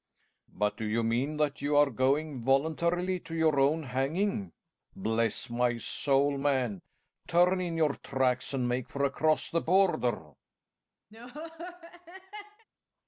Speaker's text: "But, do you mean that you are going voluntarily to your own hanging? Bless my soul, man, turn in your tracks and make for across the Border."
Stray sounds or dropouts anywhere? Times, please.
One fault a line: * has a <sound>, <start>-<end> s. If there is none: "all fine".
* has a laugh, 11.1-12.7 s